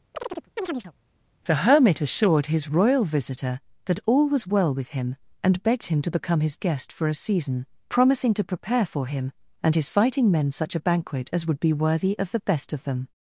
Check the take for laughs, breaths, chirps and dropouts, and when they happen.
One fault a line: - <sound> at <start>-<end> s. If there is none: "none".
- chirp at 0.1-0.9 s